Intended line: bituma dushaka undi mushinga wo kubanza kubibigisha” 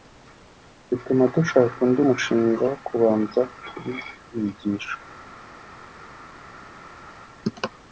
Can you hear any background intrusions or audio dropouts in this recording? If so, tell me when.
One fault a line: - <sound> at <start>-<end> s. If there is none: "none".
none